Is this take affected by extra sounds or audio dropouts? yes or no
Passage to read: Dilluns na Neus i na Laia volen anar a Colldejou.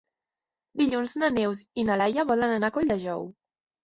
no